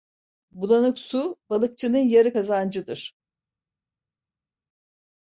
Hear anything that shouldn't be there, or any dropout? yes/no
no